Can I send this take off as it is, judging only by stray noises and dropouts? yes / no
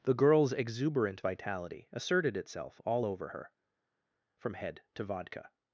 yes